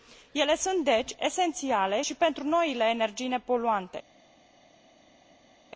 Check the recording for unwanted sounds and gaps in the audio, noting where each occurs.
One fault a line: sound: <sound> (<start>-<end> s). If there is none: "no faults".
no faults